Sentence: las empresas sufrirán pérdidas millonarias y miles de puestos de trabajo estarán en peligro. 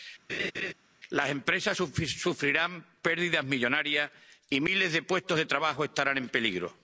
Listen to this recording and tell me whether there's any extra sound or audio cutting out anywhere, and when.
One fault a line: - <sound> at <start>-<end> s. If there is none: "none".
- laugh at 0.3-0.7 s